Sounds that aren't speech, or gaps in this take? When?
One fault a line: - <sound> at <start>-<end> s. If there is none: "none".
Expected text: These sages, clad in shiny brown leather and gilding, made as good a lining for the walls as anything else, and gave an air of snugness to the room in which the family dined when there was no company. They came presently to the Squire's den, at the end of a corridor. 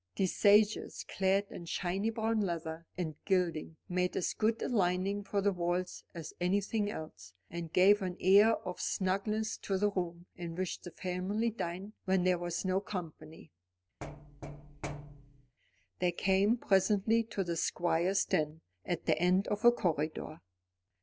- thud at 14.0-15.6 s